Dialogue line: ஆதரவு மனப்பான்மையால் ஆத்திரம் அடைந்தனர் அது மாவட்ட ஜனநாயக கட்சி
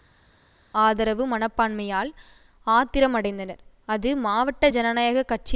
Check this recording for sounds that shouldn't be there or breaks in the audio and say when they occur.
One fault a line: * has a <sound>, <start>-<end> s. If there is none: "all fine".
all fine